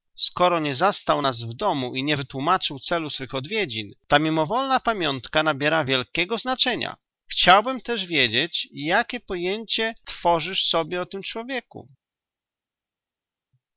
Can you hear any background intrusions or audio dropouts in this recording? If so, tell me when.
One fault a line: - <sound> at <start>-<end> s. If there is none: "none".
none